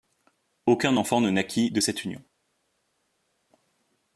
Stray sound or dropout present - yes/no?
no